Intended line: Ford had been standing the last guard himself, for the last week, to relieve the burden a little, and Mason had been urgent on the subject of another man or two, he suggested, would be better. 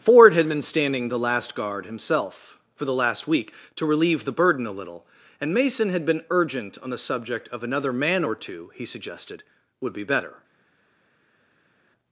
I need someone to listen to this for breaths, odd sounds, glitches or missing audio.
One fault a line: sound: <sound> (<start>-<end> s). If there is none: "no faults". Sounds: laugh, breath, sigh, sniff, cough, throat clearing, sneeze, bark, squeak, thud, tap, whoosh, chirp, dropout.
no faults